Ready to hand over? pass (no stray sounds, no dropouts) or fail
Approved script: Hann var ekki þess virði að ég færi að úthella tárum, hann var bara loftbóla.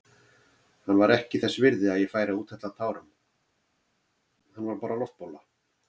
pass